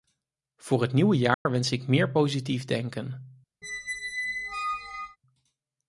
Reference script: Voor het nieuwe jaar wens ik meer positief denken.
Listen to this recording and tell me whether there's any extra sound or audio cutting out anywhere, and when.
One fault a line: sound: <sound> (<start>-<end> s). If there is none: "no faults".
sound: dropout (1.3-1.5 s)
sound: squeak (3.6-5.2 s)